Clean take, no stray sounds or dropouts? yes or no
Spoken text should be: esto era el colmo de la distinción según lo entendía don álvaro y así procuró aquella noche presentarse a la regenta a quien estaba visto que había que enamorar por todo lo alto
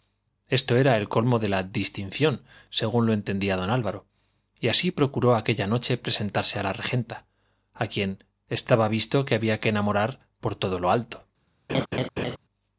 no